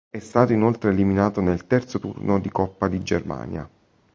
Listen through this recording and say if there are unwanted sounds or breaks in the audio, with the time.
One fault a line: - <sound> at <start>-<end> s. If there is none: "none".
none